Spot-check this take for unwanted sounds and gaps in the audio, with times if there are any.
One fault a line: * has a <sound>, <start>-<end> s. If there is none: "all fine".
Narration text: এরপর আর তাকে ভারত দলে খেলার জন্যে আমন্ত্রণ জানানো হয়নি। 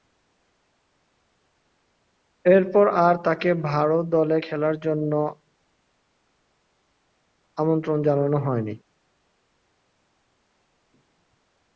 all fine